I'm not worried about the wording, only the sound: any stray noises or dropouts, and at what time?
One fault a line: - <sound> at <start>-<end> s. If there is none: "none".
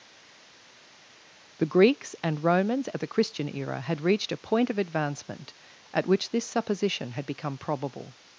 none